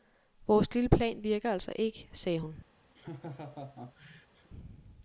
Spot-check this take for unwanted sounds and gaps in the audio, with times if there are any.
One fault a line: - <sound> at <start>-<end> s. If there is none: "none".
- laugh at 2.9-4.5 s